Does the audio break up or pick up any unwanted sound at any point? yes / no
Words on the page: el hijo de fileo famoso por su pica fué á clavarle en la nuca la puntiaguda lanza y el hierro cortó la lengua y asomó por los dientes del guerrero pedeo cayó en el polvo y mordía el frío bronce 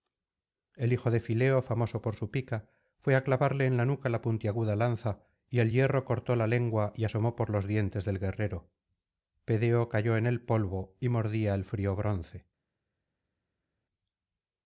no